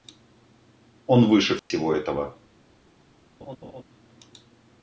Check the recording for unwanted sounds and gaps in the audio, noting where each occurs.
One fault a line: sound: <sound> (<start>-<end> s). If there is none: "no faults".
sound: dropout (1.6-1.7 s)
sound: laugh (3.4-3.8 s)